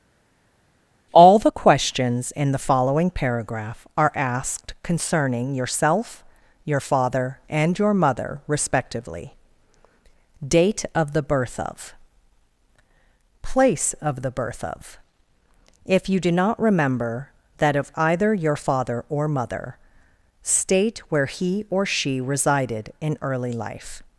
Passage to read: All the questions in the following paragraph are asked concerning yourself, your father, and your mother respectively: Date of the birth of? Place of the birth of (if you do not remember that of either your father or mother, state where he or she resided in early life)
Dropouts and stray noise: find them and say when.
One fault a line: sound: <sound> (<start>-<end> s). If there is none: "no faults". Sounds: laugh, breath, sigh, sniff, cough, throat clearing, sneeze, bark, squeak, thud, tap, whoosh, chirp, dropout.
no faults